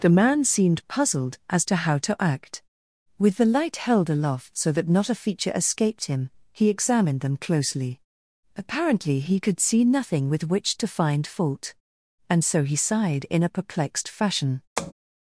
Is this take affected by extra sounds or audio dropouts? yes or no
yes